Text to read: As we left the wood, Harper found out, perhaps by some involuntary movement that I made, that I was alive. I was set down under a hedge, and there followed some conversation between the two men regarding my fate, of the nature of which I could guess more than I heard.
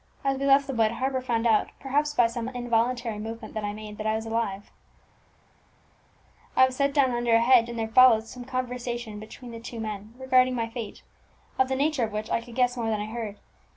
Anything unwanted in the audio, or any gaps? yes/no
no